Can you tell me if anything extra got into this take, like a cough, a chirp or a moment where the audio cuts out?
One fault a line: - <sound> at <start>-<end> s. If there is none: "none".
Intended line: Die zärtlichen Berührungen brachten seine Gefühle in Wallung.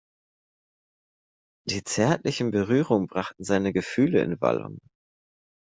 none